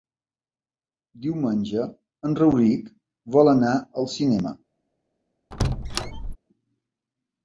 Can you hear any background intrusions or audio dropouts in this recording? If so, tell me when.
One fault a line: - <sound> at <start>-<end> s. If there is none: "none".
- squeak at 5.5-6.4 s